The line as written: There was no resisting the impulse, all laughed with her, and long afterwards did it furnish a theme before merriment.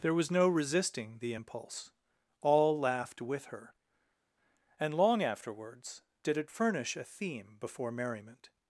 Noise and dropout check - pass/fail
pass